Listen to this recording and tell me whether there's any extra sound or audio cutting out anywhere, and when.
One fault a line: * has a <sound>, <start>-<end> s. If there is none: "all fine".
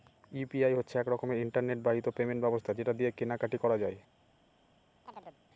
* has a chirp, 5.1-5.4 s